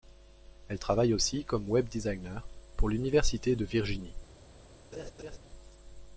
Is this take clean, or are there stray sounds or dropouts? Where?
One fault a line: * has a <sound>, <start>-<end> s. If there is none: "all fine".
* has a laugh, 4.9-5.4 s